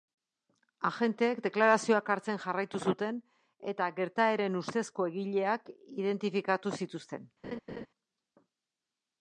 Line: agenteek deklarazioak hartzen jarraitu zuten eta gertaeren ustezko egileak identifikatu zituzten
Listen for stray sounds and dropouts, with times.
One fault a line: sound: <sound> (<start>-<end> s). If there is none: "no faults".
sound: laugh (7.4-7.9 s)